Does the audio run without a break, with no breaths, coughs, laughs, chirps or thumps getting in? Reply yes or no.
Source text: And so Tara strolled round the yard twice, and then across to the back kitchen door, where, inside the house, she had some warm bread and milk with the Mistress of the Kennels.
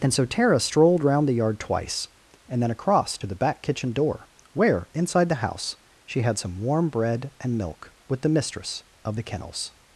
yes